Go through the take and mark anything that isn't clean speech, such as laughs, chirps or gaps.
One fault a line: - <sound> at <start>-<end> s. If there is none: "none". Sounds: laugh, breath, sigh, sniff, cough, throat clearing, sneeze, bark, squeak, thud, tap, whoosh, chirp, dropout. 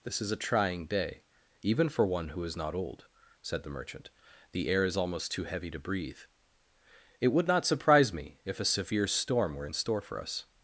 none